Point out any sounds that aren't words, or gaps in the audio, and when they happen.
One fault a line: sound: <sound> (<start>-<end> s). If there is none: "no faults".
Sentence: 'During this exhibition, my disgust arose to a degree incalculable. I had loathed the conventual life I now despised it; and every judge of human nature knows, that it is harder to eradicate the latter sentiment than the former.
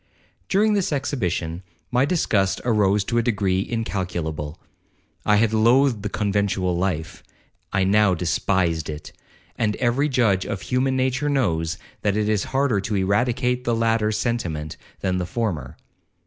no faults